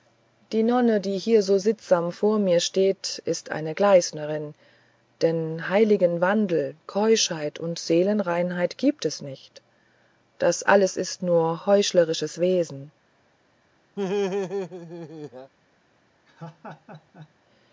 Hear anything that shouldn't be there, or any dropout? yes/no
yes